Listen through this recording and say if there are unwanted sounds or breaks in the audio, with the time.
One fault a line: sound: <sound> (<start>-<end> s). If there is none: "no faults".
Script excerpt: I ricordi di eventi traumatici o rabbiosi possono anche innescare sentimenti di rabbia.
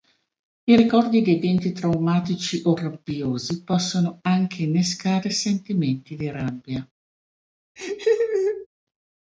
sound: laugh (7.8-8.7 s)